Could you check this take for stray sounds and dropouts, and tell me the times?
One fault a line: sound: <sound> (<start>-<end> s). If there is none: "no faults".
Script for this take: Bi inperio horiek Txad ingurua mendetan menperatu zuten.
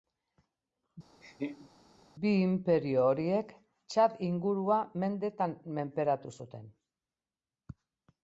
sound: laugh (1.2-1.7 s)